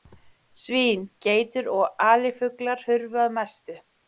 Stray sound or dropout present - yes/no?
no